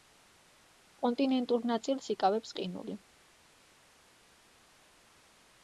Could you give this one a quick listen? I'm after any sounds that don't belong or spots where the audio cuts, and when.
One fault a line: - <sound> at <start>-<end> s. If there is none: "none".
none